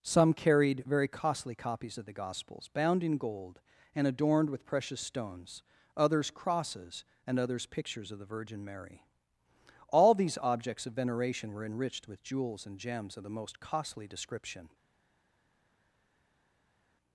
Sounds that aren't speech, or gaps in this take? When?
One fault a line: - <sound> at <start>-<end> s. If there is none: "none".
none